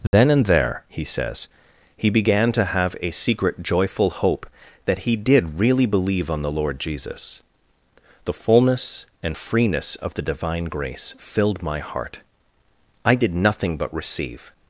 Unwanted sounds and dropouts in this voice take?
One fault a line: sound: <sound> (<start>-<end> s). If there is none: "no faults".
sound: dropout (0.1-0.1 s)